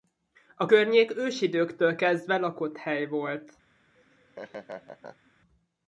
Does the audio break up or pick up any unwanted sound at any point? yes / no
yes